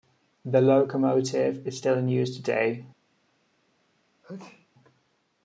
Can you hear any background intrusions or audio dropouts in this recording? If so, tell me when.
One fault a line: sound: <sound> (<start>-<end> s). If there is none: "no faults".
sound: sneeze (4.2-4.7 s)